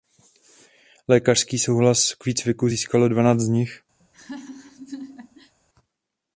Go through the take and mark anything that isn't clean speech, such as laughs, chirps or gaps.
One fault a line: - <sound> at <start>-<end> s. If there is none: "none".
- laugh at 4.0-5.6 s